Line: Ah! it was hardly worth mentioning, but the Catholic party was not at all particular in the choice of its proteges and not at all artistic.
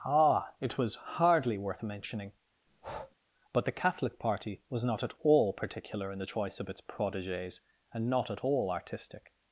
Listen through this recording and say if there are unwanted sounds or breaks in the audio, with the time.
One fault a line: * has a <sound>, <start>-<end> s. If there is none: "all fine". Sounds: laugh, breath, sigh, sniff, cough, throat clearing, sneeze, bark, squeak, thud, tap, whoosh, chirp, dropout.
* has a breath, 2.7-3.2 s